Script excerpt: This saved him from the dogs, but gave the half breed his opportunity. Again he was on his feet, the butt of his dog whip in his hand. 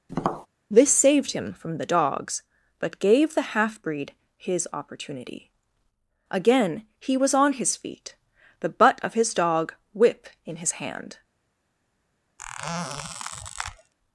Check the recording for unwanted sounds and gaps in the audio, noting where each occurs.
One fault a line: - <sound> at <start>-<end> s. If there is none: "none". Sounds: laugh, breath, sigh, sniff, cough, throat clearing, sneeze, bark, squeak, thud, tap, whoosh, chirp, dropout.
- tap at 0.1-0.5 s
- squeak at 12.4-13.9 s